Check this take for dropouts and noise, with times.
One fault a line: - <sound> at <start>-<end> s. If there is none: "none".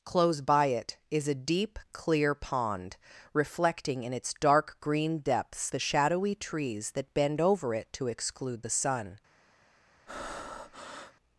- breath at 10.1-11.1 s